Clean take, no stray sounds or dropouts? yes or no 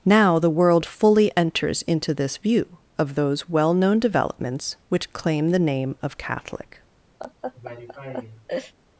no